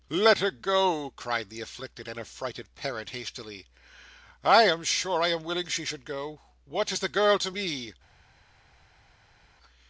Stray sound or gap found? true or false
false